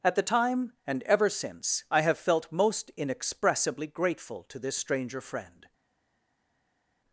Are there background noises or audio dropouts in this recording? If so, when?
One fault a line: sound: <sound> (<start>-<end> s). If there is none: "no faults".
no faults